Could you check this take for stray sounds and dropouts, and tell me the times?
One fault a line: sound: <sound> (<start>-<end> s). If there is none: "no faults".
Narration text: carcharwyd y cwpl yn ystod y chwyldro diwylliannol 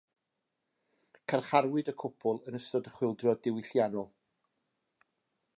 no faults